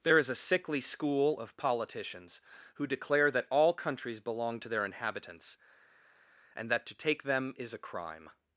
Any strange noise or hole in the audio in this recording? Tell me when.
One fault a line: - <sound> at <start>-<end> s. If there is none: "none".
none